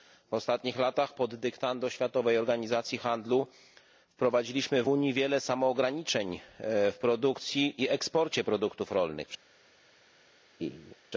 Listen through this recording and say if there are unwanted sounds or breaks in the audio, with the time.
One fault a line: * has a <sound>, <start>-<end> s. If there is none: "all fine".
* has a laugh, 10.6-11.0 s